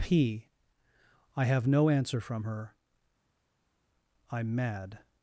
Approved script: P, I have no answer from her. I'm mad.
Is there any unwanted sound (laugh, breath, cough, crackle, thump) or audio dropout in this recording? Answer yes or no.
no